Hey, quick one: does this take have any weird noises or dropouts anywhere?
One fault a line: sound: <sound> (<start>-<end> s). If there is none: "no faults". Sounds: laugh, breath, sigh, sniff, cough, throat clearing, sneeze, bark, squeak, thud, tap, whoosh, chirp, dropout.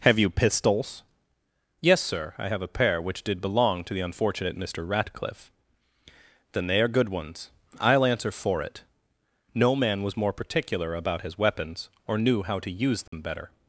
sound: dropout (13.1-13.1 s)